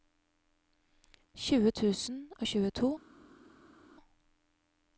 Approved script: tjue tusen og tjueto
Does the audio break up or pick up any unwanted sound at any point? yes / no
no